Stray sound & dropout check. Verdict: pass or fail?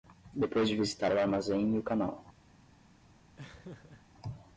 fail